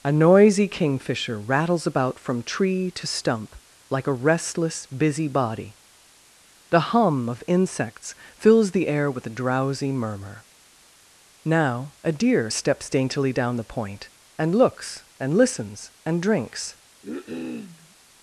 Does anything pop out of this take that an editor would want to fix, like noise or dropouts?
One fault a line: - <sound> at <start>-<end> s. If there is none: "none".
- cough at 17.0-18.0 s